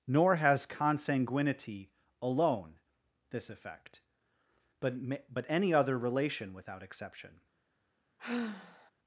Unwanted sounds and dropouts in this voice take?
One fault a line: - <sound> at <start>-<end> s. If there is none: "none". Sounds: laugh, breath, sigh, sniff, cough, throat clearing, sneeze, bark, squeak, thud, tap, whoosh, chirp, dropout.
- sigh at 8.2-8.9 s